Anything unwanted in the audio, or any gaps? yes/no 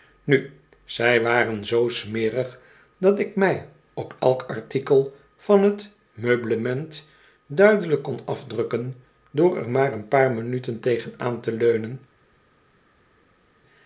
no